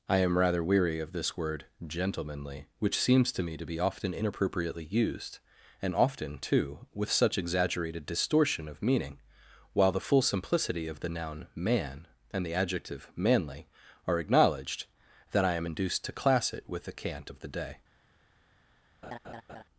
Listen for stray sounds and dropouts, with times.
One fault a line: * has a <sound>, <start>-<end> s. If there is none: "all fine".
* has a laugh, 19.0-19.6 s